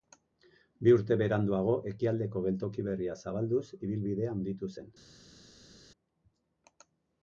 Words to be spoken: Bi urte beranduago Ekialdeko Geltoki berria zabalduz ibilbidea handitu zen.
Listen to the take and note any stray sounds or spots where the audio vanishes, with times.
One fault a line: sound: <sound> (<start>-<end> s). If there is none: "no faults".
no faults